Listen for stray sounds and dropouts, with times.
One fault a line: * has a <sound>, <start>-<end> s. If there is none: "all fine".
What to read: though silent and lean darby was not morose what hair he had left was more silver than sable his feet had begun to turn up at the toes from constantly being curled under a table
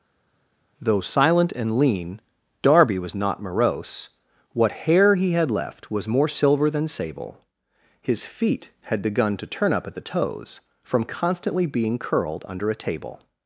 all fine